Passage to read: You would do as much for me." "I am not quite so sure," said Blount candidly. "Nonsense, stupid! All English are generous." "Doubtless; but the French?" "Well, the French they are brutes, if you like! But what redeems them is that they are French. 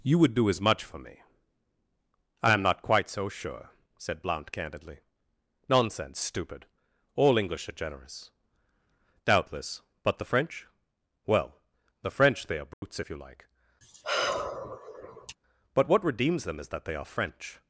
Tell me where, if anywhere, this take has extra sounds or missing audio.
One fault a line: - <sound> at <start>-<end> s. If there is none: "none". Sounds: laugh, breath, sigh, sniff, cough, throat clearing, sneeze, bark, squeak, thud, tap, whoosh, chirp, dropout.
- dropout at 12.7-12.8 s
- sigh at 13.8-15.4 s